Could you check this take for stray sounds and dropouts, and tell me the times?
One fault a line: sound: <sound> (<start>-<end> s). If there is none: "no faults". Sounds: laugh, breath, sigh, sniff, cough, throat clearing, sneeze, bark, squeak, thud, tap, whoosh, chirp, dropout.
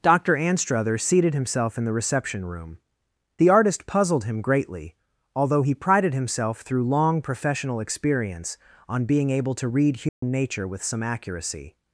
sound: dropout (10.1-10.2 s)